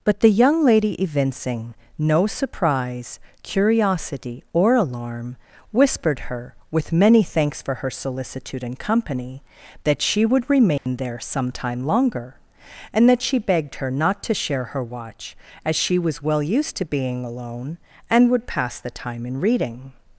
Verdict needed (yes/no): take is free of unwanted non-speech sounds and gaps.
no